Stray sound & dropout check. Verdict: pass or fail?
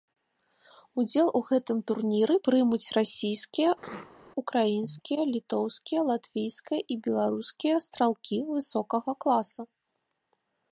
fail